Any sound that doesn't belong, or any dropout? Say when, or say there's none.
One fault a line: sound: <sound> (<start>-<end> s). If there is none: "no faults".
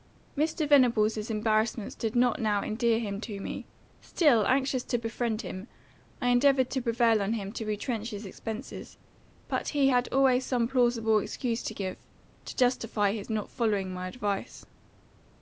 no faults